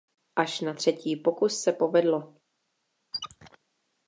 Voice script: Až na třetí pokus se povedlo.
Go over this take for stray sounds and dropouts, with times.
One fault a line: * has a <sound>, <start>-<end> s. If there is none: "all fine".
* has a squeak, 3.1-3.6 s